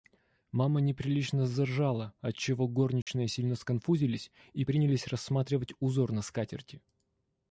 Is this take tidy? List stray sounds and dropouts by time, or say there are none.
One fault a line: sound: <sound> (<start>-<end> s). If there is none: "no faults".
sound: dropout (3.0-3.1 s)